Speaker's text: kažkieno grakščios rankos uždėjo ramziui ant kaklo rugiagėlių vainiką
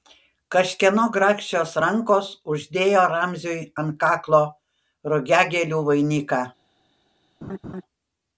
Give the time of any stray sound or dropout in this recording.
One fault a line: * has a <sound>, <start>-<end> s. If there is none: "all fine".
* has a laugh, 7.4-7.8 s